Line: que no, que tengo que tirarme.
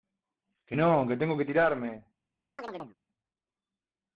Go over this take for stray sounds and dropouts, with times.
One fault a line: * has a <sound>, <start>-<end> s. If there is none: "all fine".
* has a chirp, 2.6-3.0 s